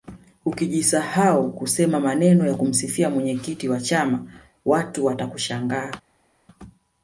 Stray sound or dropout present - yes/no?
no